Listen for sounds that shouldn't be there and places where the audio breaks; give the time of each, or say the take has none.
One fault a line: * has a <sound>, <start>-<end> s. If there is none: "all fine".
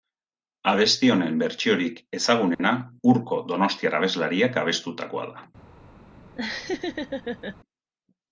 * has a dropout, 2.5-2.6 s
* has a laugh, 6.3-7.6 s